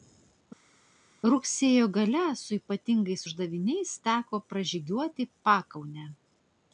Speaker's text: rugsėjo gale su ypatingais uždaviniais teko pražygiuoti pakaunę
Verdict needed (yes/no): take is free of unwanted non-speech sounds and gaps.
yes